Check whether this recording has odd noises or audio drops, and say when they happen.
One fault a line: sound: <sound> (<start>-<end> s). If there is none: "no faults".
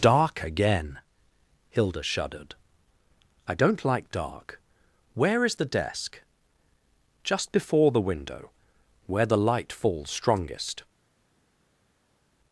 no faults